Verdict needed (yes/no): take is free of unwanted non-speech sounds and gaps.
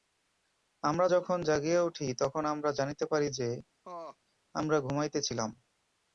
no